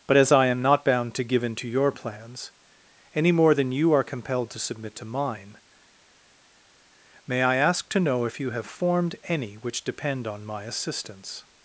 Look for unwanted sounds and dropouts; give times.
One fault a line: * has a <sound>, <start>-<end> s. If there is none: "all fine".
all fine